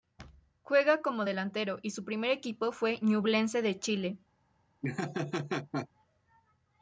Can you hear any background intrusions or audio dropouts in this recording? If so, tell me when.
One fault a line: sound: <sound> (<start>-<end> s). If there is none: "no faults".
sound: laugh (4.8-5.9 s)